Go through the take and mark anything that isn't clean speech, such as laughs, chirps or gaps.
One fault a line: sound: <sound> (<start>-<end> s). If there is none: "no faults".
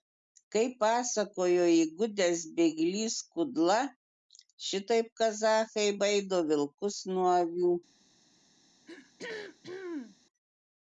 sound: throat clearing (8.9-10.2 s)